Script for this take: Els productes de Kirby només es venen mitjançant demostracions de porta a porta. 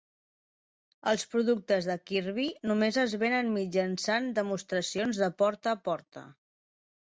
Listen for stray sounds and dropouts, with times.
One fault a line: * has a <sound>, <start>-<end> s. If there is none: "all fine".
all fine